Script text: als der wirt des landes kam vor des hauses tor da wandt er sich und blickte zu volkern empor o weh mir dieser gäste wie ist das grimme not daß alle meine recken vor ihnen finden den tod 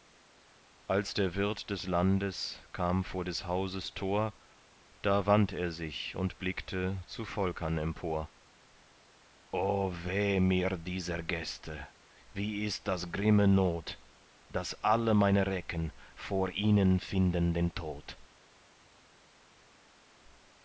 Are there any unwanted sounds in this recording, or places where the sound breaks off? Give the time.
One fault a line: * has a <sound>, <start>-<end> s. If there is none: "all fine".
all fine